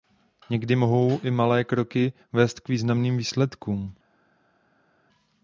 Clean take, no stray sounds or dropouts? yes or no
yes